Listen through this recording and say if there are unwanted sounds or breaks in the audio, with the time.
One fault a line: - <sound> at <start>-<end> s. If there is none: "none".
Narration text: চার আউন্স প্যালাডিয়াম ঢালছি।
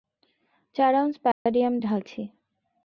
- dropout at 1.3-1.5 s